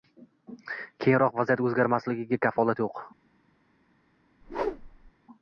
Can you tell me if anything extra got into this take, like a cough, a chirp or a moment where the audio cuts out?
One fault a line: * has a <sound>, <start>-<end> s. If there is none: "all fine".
* has a whoosh, 4.4-5.1 s